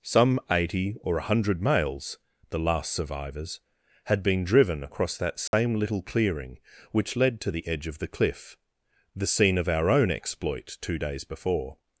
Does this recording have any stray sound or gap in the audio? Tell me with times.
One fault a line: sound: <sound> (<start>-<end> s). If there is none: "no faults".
sound: dropout (5.5-5.5 s)